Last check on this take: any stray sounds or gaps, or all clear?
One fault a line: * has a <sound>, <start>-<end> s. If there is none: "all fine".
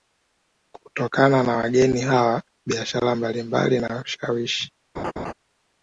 * has a laugh, 4.9-5.3 s